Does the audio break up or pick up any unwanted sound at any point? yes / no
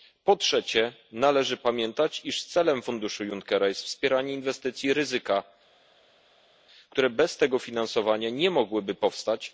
no